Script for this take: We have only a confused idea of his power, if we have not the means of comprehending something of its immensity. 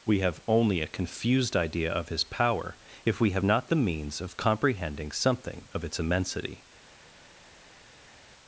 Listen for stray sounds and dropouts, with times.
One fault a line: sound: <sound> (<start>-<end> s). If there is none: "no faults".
no faults